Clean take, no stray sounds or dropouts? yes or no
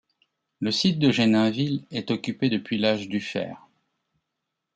yes